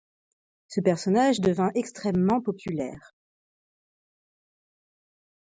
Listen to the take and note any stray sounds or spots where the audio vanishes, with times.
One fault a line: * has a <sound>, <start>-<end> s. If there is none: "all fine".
all fine